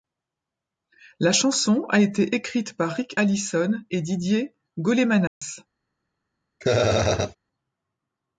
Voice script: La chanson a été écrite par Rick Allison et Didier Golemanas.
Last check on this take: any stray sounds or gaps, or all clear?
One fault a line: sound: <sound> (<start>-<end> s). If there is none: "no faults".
sound: dropout (5.3-5.4 s)
sound: laugh (6.6-7.4 s)